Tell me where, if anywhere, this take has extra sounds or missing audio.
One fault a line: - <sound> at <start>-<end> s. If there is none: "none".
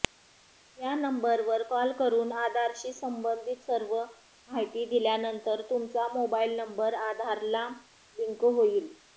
none